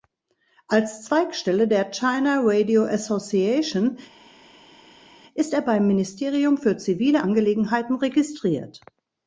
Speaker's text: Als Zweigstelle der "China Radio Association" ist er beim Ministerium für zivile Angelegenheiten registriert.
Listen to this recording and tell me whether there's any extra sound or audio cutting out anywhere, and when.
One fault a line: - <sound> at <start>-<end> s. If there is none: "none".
none